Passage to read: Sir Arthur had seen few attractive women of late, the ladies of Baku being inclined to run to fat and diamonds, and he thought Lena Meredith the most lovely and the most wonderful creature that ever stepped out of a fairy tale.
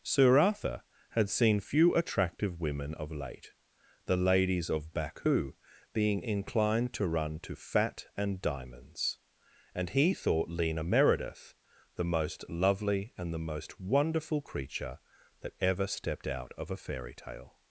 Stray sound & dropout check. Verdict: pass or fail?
pass